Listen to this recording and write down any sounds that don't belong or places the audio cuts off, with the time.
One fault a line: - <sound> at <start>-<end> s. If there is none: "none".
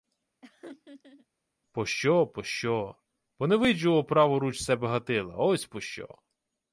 - laugh at 0.4-1.3 s